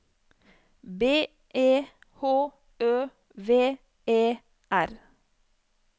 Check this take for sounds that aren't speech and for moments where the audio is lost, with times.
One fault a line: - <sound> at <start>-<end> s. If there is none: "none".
none